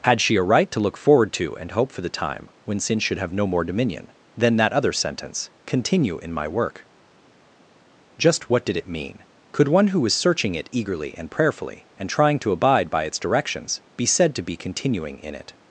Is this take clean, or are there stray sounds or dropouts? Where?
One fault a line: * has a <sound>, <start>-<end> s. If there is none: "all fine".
all fine